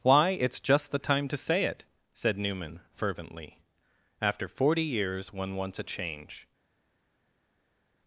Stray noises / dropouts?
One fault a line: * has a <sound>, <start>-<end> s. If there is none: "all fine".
all fine